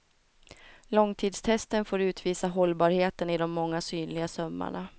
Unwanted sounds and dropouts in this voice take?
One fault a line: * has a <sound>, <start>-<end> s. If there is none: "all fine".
all fine